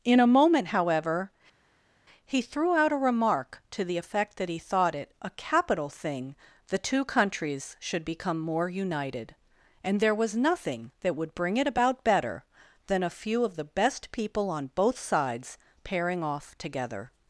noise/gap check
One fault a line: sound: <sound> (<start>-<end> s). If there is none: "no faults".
no faults